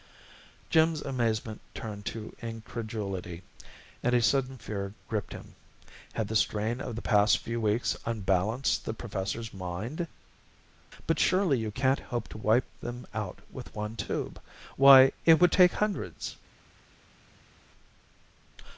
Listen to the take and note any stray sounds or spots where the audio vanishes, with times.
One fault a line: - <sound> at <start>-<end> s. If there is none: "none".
none